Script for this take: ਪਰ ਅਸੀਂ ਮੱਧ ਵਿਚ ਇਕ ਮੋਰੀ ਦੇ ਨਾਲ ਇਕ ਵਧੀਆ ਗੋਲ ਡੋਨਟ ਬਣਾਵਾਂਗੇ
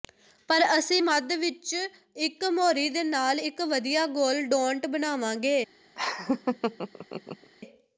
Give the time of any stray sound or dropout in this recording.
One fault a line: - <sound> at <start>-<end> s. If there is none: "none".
- laugh at 5.9-7.5 s